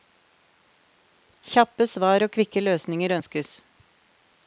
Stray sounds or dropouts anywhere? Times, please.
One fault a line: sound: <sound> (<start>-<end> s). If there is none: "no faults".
no faults